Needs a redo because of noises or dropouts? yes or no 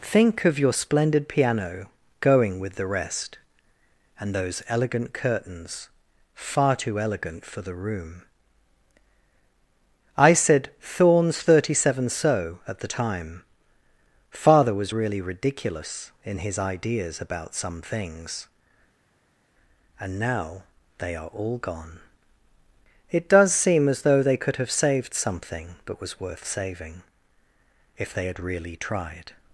no